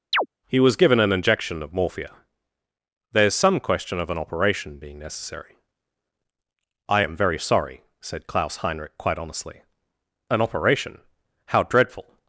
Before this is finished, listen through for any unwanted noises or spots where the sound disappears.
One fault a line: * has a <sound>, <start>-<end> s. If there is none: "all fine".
* has a chirp, 0.1-0.3 s